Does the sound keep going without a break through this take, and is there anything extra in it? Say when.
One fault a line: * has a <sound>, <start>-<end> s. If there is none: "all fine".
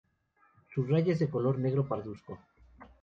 all fine